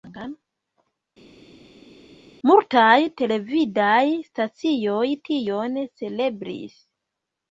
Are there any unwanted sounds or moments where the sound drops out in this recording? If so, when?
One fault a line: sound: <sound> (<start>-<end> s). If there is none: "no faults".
no faults